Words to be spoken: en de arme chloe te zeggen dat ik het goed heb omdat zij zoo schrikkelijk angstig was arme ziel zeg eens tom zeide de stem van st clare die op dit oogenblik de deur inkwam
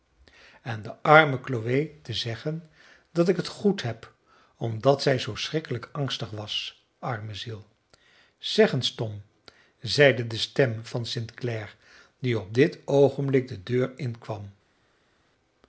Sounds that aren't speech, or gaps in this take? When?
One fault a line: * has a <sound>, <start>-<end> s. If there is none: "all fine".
all fine